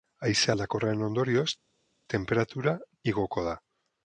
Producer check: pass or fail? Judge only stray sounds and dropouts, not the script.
pass